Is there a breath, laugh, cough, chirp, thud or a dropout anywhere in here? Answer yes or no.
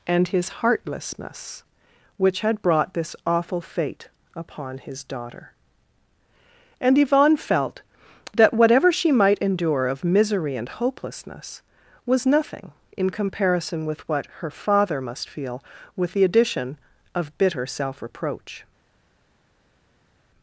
no